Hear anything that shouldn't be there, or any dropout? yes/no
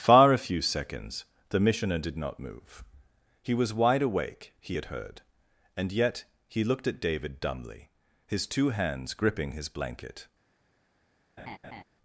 yes